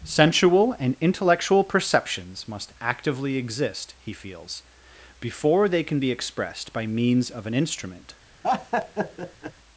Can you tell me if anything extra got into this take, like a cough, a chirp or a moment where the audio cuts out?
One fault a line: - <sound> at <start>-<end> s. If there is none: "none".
- laugh at 8.4-9.5 s